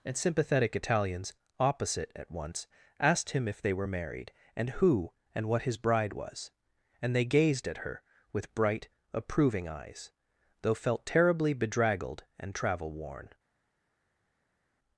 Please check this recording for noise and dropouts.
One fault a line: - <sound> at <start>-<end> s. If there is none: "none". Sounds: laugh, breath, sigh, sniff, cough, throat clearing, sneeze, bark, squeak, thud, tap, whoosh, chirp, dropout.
none